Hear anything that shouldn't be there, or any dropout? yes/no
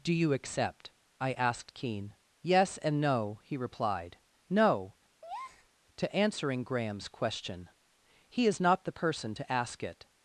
yes